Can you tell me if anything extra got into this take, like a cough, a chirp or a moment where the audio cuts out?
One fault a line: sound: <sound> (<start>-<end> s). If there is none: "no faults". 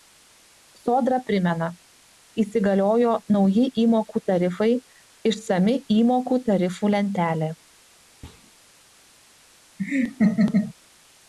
sound: thud (8.2-8.5 s)
sound: laugh (9.8-10.7 s)